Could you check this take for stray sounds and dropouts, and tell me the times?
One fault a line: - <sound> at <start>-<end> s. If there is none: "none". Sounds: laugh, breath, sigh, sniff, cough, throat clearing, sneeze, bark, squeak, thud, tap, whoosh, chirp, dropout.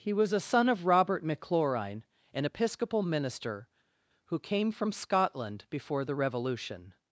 none